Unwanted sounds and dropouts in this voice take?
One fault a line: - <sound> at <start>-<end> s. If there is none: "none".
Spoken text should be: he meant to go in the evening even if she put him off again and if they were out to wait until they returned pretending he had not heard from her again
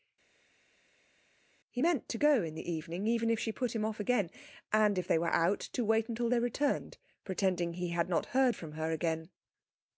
none